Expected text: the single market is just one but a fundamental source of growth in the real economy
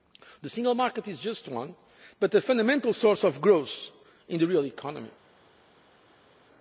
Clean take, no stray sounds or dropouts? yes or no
yes